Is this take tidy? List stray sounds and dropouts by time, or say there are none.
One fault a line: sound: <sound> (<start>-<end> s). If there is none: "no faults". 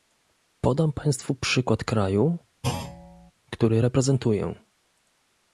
sound: thud (2.6-3.3 s)